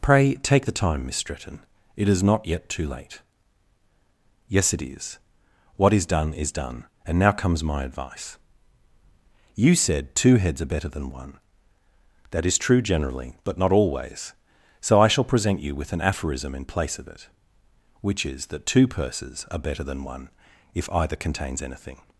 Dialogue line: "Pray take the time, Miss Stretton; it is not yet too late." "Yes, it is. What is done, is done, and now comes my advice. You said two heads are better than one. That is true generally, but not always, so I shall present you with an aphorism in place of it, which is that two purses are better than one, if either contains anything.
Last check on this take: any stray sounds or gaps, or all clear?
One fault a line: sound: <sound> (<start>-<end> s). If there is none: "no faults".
no faults